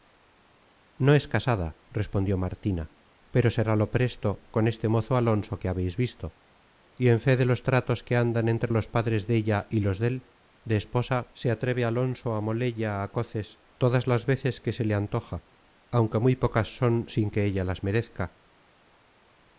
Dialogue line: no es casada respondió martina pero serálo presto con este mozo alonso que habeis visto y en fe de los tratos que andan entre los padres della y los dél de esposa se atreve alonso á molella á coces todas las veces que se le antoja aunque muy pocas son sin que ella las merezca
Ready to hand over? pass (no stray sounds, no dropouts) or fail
pass